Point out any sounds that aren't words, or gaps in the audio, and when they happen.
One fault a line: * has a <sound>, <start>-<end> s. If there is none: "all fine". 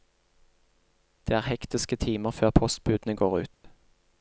* has a dropout, 3.5-3.6 s